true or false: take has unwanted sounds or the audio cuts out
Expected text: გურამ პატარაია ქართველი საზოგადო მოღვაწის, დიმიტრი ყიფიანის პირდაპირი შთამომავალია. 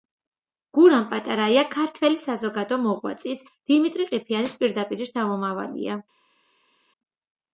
false